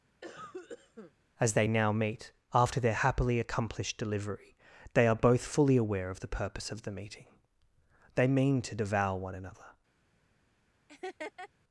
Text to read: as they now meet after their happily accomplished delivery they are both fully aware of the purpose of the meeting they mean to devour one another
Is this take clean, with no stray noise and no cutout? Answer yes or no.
no